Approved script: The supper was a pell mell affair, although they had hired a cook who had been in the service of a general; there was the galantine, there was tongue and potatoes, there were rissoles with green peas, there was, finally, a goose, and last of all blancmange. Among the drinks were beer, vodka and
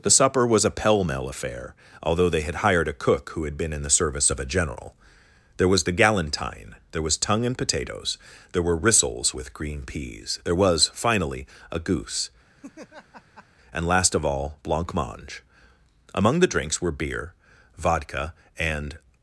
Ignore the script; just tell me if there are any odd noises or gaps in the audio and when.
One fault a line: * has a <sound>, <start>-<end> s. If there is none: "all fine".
* has a laugh, 12.6-13.5 s